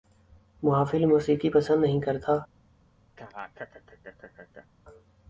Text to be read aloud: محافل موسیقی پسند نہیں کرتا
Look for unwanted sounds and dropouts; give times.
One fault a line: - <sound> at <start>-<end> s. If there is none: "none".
- laugh at 3.2-4.7 s